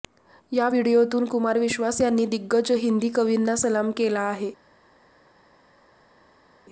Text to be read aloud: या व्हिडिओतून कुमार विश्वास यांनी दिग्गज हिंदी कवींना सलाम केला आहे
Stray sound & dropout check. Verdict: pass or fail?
pass